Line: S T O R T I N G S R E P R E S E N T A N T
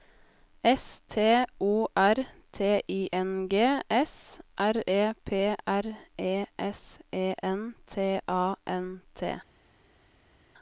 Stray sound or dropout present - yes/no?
no